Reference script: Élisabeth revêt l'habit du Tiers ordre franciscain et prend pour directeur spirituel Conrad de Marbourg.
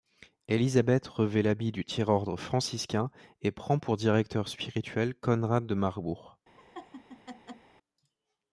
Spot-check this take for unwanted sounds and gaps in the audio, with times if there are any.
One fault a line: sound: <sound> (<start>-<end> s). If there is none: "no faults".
sound: laugh (6.6-7.7 s)